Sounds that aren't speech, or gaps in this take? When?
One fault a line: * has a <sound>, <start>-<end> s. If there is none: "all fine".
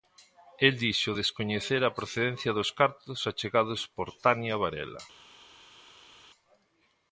all fine